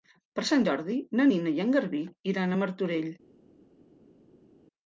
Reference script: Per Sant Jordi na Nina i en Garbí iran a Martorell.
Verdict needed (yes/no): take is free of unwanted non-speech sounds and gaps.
yes